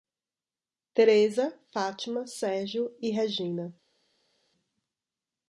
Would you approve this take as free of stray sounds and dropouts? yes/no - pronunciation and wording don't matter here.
yes